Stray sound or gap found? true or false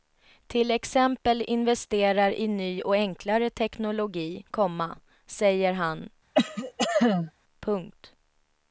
true